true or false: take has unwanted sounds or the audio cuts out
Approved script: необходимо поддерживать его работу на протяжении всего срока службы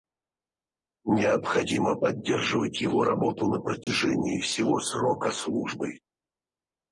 true